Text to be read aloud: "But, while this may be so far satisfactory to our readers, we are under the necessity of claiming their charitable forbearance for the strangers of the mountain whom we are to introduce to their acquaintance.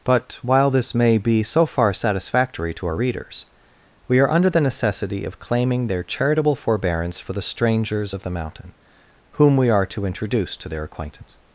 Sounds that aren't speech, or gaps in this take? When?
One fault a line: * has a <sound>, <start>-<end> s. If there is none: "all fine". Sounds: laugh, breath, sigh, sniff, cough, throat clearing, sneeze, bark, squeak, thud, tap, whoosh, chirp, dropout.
all fine